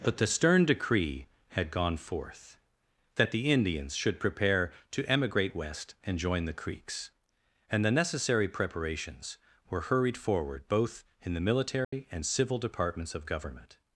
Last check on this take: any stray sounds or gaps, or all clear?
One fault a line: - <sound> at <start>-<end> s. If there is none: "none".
- dropout at 11.8-11.9 s